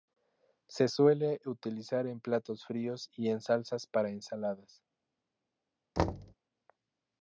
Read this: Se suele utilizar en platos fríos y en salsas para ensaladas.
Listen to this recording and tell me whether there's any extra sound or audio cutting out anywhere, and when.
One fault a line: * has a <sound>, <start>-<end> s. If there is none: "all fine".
* has a thud, 6.0-6.3 s